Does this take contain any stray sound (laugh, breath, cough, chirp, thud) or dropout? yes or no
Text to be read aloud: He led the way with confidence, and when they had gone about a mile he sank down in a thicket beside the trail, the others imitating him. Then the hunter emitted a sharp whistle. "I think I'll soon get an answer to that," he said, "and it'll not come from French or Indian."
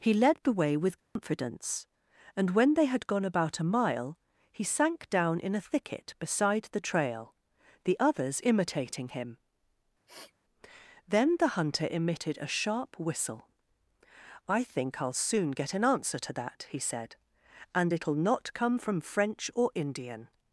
yes